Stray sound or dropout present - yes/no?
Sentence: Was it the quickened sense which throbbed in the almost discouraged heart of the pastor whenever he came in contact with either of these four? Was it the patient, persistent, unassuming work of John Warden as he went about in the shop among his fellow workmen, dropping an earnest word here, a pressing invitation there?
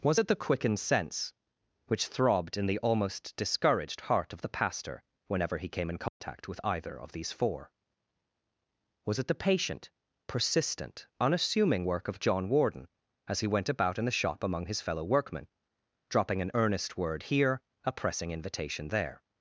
yes